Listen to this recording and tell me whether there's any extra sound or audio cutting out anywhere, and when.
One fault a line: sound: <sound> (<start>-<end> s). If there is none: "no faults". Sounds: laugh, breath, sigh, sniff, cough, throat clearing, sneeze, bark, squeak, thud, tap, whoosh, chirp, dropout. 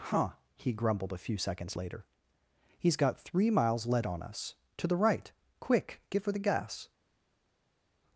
no faults